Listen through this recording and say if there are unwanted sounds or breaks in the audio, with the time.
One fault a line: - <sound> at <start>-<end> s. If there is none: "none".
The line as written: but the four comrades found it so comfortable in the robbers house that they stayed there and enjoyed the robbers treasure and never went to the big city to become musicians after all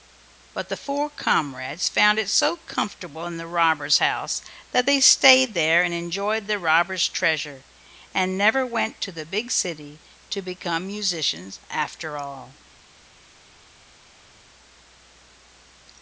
none